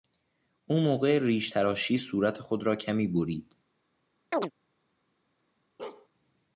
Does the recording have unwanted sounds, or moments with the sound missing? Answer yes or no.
yes